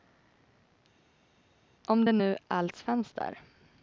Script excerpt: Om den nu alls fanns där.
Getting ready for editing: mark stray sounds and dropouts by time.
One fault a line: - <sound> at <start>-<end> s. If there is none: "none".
none